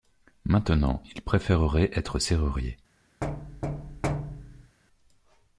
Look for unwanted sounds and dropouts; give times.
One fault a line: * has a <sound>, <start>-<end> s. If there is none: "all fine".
* has a thud, 3.2-4.8 s